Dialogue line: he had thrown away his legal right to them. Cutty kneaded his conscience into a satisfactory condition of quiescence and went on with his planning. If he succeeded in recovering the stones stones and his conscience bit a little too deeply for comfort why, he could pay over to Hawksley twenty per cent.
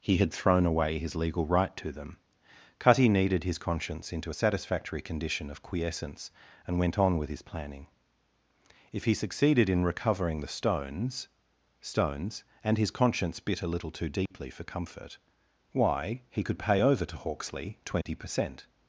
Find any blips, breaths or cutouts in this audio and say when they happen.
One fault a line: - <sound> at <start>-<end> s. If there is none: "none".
- dropout at 14.3-14.3 s
- dropout at 18.0-18.1 s